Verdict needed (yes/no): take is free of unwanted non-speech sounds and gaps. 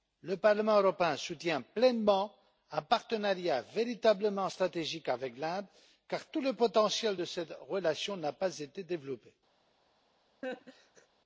no